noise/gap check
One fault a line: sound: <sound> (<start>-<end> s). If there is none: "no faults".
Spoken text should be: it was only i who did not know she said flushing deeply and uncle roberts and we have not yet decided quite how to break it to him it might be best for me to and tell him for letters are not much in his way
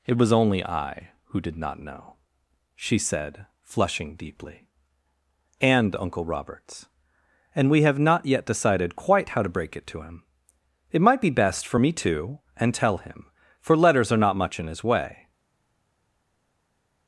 no faults